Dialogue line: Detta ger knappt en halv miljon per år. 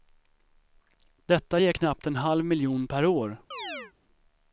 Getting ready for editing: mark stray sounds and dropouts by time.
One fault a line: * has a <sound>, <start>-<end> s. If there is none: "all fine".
* has a chirp, 3.5-3.9 s